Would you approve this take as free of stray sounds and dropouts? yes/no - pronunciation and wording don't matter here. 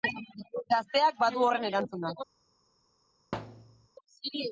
no